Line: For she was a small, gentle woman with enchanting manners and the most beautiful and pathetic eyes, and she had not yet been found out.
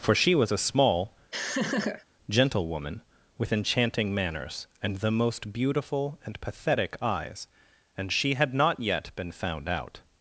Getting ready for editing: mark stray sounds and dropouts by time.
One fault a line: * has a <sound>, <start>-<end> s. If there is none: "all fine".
* has a laugh, 1.3-2.1 s